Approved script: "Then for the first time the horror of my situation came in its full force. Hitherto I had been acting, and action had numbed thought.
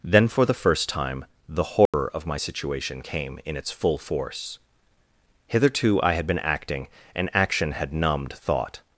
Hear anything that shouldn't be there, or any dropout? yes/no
yes